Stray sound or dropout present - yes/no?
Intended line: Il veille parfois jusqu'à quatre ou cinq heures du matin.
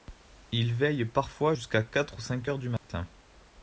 yes